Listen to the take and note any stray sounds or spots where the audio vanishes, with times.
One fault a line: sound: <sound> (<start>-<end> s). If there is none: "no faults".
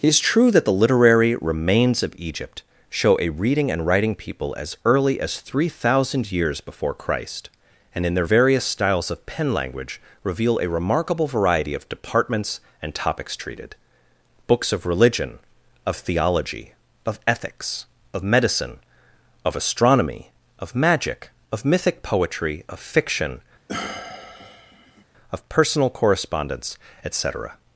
sound: sigh (23.7-25.0 s)